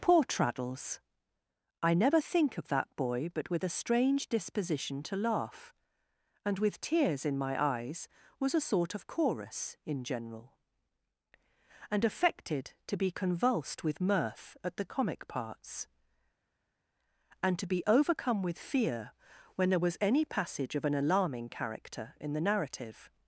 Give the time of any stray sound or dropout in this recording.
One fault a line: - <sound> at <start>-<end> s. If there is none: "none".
none